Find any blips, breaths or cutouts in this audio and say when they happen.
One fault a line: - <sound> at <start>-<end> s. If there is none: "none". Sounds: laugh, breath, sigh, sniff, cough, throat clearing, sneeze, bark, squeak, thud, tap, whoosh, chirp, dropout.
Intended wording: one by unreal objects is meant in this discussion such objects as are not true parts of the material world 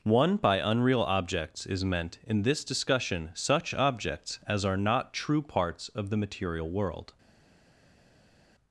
none